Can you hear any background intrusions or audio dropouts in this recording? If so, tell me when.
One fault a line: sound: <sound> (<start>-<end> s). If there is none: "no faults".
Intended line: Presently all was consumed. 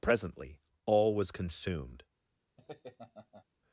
sound: laugh (2.6-3.4 s)